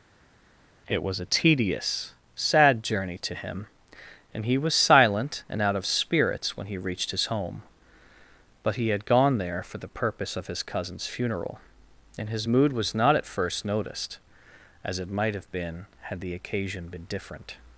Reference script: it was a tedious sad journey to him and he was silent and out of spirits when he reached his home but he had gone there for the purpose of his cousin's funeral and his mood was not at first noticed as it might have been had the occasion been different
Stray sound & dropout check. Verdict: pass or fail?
pass